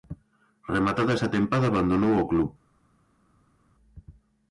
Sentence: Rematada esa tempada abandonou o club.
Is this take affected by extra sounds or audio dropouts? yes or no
no